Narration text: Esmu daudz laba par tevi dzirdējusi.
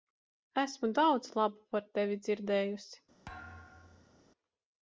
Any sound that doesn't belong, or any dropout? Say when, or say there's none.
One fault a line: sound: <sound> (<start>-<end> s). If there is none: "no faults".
sound: thud (3.3-4.2 s)